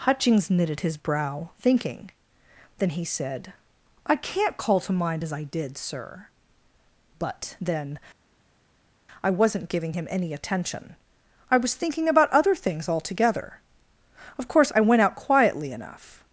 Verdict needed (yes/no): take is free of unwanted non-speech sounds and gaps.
yes